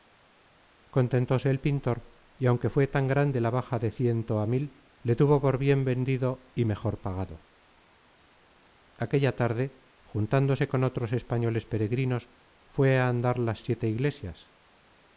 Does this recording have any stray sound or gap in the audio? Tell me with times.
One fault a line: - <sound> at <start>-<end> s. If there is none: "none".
none